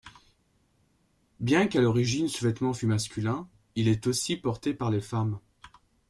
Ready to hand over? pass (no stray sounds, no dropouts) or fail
pass